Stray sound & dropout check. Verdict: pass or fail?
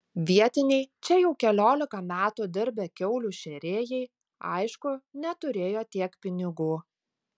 pass